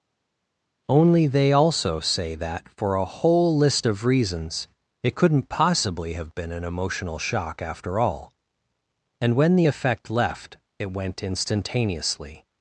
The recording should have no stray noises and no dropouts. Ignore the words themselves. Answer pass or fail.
pass